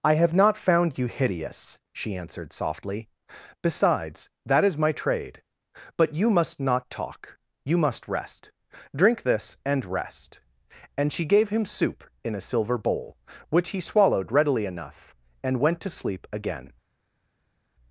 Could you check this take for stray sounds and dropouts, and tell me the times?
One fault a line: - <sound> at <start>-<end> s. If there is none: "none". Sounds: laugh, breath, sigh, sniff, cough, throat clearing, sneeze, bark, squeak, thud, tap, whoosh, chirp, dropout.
none